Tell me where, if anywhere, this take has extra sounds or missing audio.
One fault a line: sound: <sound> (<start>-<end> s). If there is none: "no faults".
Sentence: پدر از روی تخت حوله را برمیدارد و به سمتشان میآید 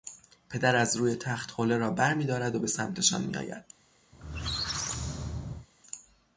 sound: squeak (4.1-5.7 s)